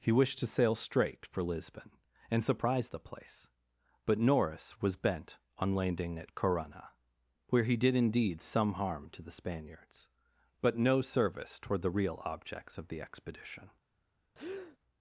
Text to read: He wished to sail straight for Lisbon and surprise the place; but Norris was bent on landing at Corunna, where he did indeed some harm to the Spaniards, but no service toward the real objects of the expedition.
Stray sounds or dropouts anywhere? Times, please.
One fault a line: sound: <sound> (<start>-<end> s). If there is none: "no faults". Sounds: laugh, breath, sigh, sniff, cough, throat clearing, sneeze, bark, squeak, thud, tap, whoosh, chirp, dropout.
sound: breath (14.3-14.8 s)